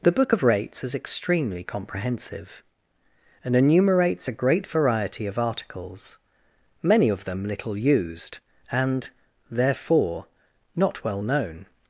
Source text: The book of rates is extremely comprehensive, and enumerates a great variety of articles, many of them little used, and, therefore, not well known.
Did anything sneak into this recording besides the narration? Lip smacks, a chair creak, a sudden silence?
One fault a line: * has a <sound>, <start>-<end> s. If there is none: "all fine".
all fine